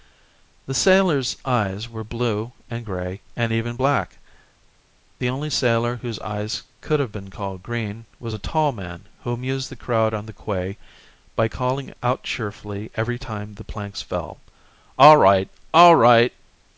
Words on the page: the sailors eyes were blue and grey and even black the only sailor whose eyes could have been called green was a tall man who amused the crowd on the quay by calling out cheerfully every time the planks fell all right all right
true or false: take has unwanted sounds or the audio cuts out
false